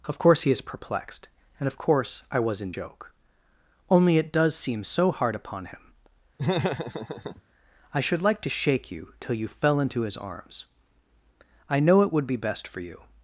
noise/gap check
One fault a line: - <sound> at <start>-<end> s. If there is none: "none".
- laugh at 6.4-7.4 s